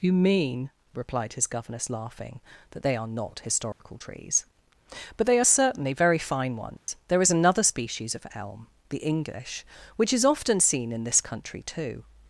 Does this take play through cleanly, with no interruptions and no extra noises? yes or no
no